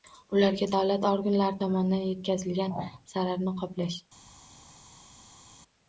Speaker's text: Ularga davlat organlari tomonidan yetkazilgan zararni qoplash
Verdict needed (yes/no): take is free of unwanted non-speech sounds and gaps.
yes